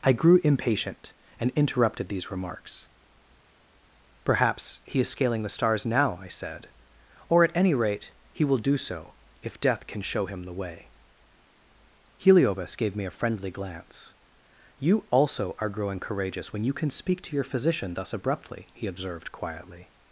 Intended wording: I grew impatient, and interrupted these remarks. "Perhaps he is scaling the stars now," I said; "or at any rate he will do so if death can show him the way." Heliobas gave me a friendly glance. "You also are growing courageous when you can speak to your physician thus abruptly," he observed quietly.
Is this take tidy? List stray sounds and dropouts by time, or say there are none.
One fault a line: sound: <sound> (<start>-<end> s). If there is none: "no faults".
no faults